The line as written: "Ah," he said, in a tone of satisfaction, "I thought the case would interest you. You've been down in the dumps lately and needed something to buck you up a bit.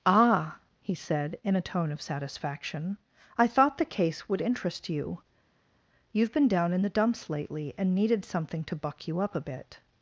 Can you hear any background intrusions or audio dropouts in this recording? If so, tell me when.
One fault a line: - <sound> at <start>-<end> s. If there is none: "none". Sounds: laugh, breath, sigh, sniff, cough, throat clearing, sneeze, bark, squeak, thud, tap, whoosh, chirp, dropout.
none